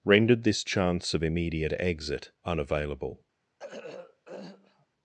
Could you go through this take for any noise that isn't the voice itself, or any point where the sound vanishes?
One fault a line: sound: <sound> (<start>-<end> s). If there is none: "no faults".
sound: throat clearing (3.6-4.9 s)